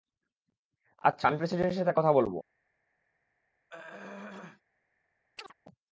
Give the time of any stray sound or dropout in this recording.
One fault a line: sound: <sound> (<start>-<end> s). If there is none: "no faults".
sound: throat clearing (3.7-4.6 s)
sound: chirp (5.4-5.5 s)